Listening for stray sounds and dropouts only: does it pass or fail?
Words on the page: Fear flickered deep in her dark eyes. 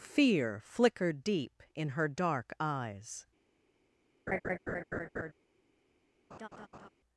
fail